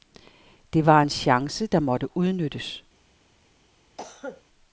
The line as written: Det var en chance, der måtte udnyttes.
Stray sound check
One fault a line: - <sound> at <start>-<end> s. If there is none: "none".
- cough at 4.0-4.4 s